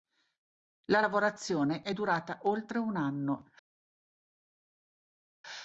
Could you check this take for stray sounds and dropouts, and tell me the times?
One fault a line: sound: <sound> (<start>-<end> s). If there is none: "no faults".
no faults